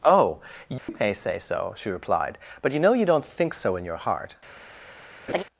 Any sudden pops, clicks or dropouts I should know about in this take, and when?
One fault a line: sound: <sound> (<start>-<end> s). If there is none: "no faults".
sound: dropout (0.8-0.9 s)
sound: laugh (5.3-5.4 s)